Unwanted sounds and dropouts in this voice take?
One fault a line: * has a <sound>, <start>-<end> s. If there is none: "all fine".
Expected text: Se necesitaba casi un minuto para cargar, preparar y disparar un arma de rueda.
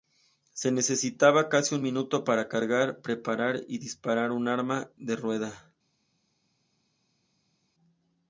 all fine